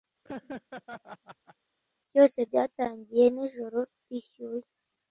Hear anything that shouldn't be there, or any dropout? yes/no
yes